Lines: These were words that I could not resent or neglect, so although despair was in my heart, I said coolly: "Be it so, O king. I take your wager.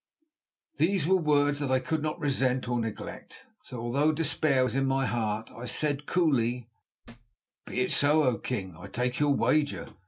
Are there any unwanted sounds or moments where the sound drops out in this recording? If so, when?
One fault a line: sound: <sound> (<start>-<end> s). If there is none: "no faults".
sound: thud (7.0-7.4 s)